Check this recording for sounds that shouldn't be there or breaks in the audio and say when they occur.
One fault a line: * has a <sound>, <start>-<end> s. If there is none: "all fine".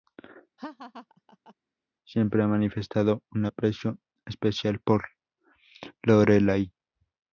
* has a laugh, 0.6-1.5 s